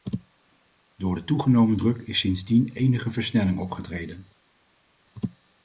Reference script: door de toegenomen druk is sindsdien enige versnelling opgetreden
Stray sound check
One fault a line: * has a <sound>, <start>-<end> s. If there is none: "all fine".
all fine